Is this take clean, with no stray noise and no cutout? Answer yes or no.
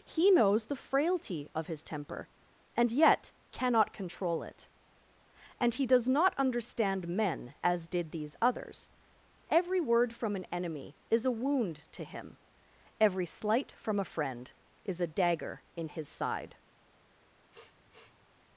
no